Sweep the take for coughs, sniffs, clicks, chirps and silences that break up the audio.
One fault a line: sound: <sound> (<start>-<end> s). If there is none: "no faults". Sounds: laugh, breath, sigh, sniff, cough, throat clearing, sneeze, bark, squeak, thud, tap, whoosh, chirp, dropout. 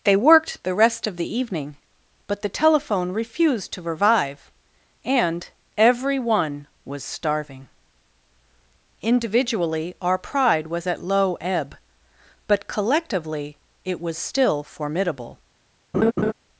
sound: laugh (15.9-16.3 s)